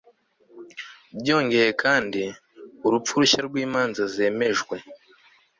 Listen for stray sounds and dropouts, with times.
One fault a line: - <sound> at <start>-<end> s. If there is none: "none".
none